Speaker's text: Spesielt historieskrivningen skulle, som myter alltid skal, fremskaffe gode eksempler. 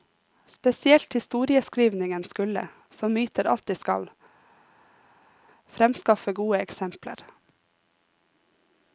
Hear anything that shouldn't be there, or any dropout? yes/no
no